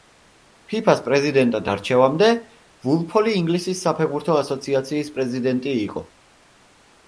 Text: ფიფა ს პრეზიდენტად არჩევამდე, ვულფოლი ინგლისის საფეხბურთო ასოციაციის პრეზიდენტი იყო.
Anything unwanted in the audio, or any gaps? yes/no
no